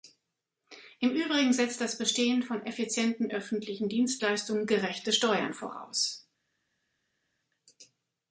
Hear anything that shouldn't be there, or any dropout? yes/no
no